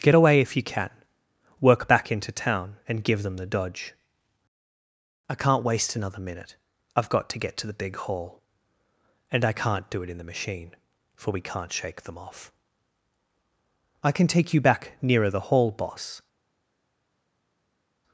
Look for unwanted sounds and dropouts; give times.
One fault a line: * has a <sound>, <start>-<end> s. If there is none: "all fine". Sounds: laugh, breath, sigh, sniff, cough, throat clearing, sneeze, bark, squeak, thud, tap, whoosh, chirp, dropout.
all fine